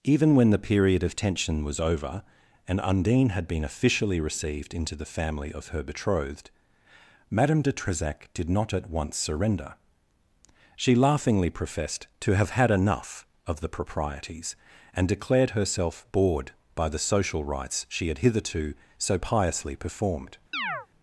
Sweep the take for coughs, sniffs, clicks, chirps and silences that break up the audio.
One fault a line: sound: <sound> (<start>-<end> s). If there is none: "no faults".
sound: chirp (20.5-20.9 s)